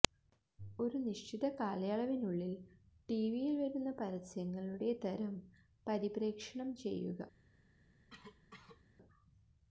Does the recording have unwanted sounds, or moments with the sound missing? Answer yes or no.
yes